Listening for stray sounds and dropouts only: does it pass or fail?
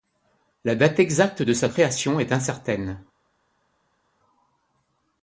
pass